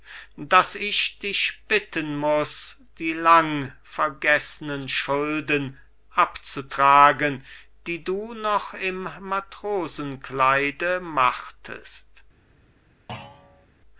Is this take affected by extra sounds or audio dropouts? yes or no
yes